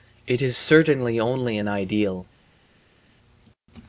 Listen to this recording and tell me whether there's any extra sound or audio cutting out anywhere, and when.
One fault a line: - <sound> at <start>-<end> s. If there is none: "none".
none